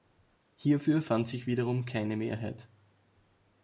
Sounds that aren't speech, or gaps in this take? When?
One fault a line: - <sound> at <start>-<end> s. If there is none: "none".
none